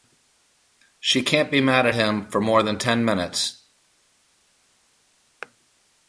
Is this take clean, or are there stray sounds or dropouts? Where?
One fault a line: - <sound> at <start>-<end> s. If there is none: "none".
none